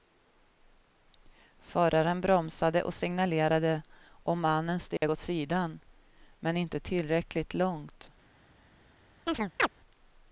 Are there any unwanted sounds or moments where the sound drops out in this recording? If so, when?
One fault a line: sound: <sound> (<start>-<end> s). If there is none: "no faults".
sound: dropout (5.0-5.0 s)
sound: chirp (9.3-9.7 s)